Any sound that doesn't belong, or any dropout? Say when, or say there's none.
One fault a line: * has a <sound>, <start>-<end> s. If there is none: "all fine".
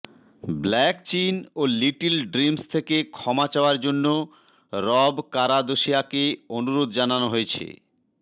all fine